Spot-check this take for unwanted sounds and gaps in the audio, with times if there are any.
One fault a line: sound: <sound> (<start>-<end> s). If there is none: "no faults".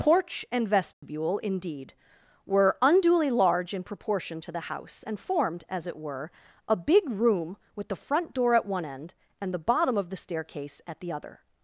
sound: dropout (0.9-1.0 s)